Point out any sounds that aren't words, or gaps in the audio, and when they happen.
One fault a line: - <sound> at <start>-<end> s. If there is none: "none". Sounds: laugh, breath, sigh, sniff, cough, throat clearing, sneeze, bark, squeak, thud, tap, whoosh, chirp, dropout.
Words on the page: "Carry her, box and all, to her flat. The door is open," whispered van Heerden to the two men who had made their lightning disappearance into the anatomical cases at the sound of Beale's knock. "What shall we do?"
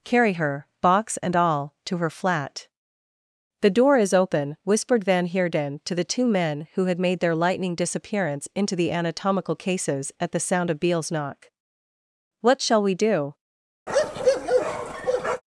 - bark at 13.9-15.4 s